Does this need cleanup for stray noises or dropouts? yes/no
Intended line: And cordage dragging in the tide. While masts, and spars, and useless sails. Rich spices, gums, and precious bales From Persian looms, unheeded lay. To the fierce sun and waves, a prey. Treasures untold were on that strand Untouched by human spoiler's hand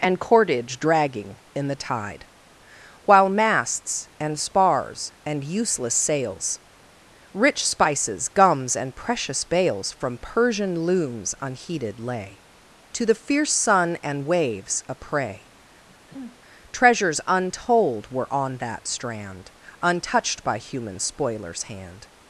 yes